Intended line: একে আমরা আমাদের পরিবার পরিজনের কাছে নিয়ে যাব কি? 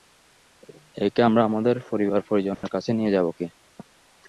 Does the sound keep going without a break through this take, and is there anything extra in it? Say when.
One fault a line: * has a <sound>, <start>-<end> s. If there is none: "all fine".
* has a dropout, 2.5-2.6 s